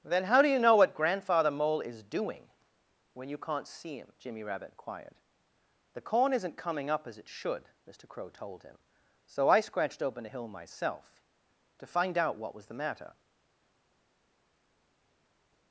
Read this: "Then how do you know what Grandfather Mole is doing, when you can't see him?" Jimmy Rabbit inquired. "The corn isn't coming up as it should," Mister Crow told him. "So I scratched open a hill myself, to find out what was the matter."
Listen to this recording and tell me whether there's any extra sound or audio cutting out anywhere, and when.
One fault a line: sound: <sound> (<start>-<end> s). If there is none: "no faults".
no faults